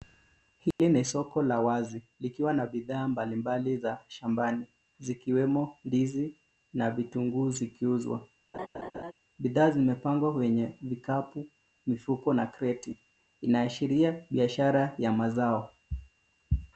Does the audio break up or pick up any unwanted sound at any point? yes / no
yes